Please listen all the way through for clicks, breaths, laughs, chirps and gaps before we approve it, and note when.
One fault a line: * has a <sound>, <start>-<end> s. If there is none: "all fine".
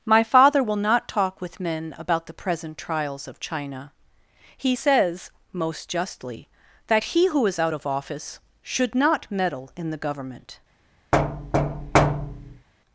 * has a thud, 11.1-12.7 s